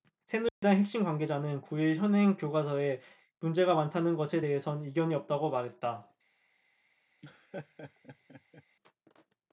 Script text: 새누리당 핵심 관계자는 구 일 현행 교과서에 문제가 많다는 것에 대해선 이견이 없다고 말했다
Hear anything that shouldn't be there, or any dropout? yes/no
yes